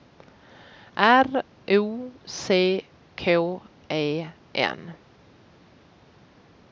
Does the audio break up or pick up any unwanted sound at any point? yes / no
no